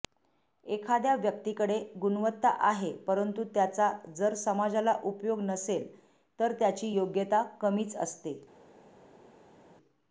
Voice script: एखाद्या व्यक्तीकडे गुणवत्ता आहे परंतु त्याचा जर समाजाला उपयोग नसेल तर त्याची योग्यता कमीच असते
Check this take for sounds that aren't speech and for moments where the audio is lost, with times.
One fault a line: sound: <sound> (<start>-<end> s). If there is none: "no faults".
no faults